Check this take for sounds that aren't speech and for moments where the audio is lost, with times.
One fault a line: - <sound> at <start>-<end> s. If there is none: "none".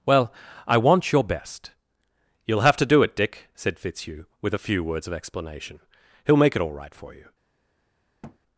- thud at 8.2-8.4 s